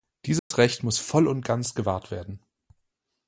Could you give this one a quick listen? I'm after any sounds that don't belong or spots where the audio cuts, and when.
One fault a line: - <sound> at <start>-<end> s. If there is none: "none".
- dropout at 0.4-0.5 s